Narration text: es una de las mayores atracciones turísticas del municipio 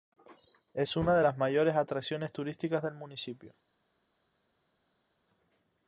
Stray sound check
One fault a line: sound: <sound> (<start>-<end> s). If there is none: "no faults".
no faults